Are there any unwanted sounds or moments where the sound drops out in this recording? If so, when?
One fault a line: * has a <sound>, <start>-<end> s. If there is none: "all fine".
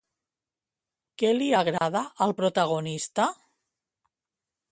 * has a dropout, 1.8-1.8 s